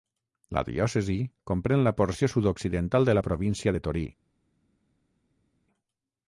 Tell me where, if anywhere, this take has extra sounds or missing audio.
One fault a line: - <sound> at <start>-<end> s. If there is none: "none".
none